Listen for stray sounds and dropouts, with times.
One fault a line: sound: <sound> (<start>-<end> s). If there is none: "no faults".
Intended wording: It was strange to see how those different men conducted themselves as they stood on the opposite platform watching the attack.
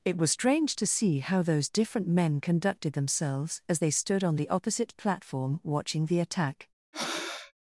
sound: breath (6.9-7.5 s)